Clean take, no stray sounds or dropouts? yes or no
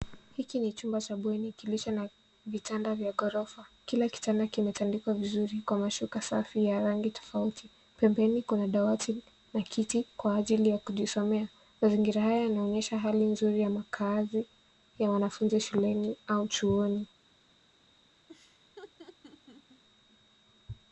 no